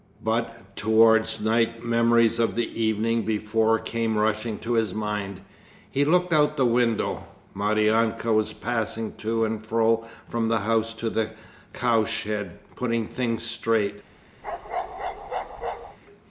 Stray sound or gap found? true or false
true